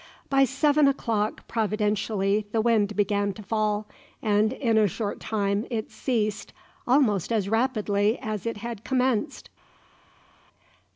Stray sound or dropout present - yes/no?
no